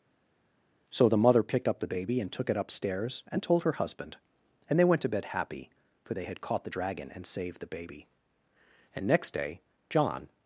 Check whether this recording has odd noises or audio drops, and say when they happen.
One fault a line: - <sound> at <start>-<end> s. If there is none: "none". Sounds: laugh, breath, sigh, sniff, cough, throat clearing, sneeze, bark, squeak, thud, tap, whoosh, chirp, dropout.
none